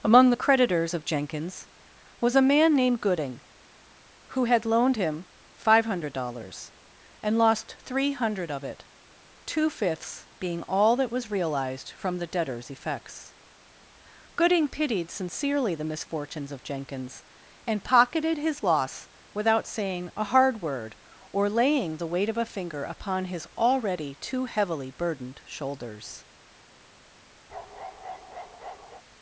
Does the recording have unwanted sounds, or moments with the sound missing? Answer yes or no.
yes